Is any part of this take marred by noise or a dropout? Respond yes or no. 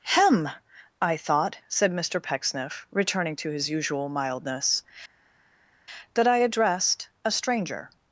no